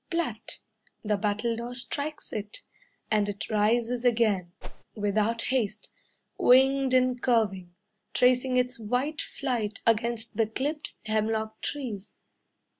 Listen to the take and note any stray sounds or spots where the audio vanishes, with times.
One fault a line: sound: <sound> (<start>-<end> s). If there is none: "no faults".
sound: whoosh (4.6-4.8 s)